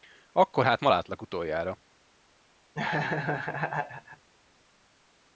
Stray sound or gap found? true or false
true